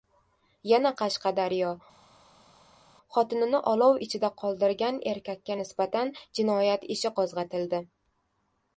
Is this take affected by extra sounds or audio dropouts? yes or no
no